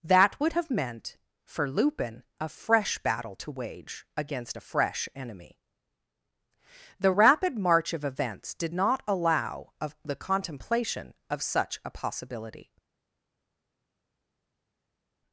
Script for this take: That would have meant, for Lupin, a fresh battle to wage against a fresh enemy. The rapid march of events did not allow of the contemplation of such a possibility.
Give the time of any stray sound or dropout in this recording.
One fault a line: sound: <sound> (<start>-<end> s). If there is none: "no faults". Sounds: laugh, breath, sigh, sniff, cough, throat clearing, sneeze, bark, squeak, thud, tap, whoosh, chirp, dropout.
no faults